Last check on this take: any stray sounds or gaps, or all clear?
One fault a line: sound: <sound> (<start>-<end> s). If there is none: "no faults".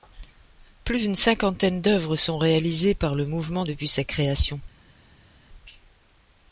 no faults